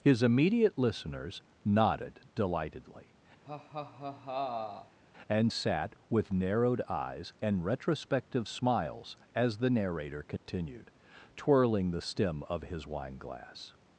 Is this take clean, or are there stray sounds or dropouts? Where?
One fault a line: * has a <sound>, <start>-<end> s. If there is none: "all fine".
* has a laugh, 3.5-5.0 s
* has a dropout, 10.4-10.5 s